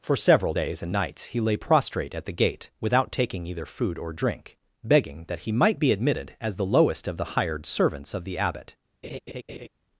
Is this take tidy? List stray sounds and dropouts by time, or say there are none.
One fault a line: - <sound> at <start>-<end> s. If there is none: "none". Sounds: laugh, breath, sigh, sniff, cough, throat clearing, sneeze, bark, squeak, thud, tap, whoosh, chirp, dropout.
- laugh at 9.0-9.7 s